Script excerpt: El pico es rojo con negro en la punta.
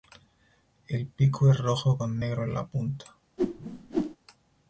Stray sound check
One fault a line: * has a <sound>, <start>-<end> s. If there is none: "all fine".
* has a whoosh, 3.4-4.2 s